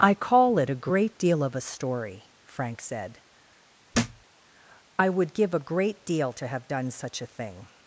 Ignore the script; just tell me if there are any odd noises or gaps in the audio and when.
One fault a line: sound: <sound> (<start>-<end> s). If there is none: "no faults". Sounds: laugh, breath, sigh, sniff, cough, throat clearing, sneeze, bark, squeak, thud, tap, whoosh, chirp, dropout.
sound: thud (3.9-4.2 s)